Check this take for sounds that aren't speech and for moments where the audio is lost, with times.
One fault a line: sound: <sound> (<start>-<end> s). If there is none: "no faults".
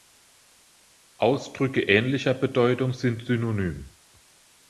no faults